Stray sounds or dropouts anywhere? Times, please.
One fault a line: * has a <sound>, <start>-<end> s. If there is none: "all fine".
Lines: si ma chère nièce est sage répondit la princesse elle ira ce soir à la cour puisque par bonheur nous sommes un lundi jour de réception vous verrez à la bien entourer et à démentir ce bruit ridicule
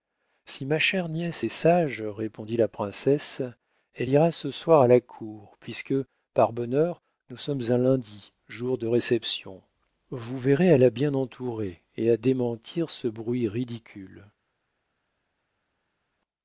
all fine